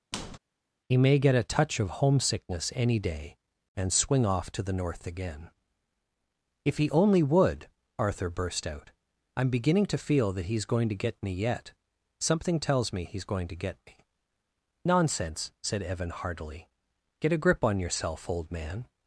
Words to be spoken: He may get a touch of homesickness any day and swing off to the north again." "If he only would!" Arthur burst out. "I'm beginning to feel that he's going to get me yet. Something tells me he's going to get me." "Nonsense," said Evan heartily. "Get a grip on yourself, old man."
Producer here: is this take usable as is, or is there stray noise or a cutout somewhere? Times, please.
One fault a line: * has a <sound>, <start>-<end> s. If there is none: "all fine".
* has a squeak, 0.1-0.4 s